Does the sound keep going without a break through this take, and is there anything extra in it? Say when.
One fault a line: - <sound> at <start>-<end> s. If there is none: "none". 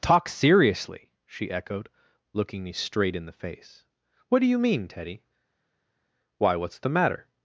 none